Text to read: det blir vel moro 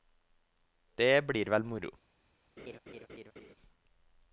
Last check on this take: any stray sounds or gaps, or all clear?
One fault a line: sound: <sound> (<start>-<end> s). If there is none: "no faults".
sound: laugh (2.6-3.5 s)